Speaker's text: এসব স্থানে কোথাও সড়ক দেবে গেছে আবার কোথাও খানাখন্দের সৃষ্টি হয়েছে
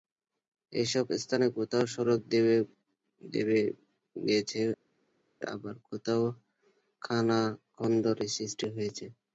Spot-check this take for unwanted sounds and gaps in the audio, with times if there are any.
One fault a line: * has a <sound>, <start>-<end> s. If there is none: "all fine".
all fine